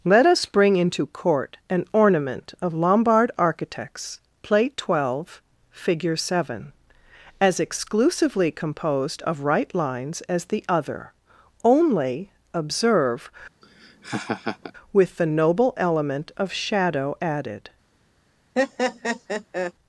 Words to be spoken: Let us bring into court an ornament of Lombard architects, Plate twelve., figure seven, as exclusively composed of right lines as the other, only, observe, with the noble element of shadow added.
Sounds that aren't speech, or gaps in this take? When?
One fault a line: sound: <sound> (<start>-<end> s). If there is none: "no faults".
sound: laugh (13.6-14.7 s)
sound: laugh (18.6-19.7 s)